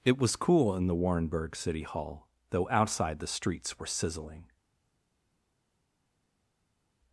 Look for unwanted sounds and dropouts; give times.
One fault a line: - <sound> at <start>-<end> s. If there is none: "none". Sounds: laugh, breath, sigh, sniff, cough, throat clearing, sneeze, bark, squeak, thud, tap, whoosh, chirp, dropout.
none